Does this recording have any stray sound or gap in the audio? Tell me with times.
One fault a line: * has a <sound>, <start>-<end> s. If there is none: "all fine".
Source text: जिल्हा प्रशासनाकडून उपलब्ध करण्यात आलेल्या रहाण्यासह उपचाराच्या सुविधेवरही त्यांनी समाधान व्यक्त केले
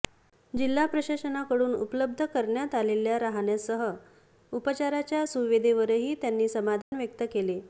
* has a dropout, 6.8-6.9 s